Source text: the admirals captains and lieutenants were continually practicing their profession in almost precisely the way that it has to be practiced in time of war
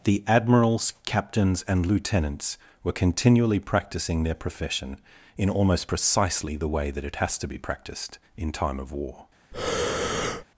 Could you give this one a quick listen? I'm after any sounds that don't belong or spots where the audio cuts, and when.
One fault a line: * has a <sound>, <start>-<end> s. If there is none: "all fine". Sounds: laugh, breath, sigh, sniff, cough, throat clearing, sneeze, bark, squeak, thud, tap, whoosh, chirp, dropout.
* has a breath, 9.5-10.4 s